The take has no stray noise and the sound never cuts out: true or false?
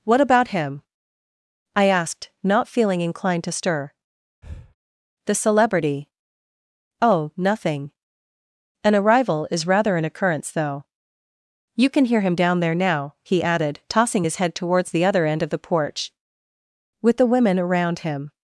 false